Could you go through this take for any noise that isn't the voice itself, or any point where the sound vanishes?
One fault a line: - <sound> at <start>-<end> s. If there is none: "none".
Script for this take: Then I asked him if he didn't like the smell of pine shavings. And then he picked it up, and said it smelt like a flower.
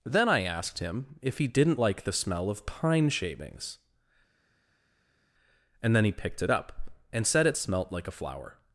none